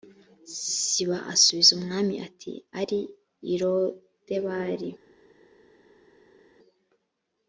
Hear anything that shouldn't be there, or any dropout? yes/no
no